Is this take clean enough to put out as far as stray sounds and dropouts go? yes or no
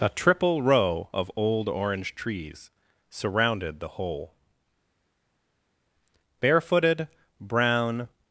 yes